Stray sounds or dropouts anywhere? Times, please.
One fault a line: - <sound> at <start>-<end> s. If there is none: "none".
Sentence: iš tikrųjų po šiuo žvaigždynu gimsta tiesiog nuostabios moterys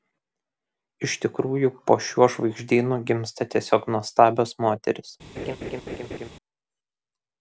- laugh at 5.4-6.3 s